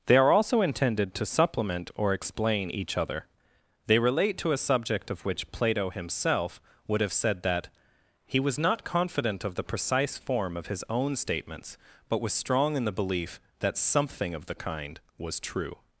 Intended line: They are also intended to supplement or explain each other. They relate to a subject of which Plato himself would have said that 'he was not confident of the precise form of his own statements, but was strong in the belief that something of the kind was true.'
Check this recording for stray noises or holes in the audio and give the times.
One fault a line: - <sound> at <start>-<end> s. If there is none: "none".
none